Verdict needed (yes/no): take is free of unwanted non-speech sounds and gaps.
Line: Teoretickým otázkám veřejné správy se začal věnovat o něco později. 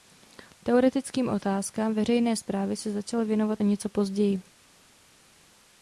yes